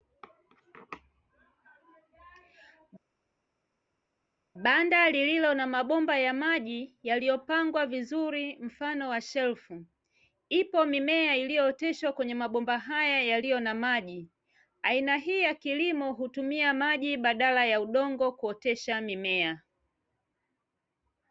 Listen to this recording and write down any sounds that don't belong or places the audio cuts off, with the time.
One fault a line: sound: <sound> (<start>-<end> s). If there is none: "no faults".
no faults